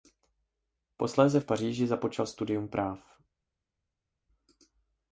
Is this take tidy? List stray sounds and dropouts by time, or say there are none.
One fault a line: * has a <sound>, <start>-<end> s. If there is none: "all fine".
all fine